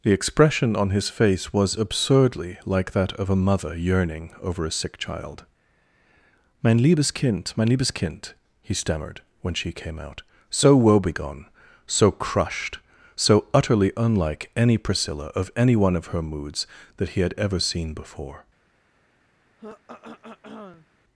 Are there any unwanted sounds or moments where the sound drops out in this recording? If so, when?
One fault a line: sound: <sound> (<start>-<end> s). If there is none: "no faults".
sound: throat clearing (19.6-20.9 s)